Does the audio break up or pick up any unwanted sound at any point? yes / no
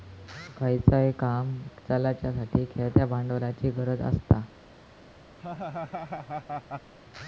yes